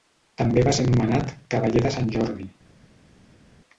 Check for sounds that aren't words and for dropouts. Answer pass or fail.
pass